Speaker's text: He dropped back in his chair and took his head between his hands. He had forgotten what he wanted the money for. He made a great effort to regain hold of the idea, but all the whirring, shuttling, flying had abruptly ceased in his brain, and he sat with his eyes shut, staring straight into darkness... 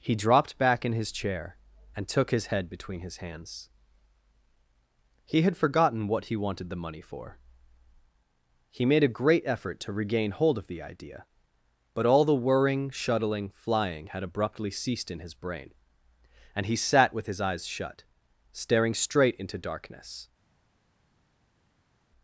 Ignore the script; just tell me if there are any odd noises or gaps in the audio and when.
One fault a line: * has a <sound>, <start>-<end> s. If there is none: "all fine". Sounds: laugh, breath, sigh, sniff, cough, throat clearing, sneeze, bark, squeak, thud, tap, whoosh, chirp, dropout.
all fine